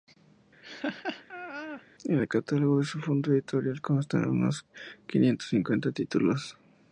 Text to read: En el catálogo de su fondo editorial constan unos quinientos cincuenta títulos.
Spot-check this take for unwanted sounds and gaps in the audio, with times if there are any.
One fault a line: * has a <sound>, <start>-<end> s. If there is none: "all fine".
* has a laugh, 0.6-1.8 s